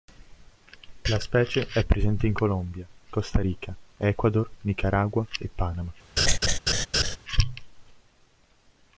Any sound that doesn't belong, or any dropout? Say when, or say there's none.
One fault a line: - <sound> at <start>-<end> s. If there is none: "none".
- laugh at 6.2-7.2 s